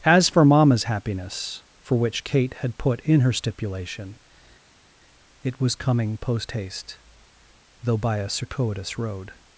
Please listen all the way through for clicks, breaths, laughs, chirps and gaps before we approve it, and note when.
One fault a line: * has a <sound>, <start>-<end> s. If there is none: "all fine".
all fine